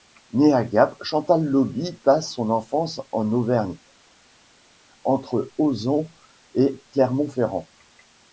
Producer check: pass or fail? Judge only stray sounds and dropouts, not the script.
pass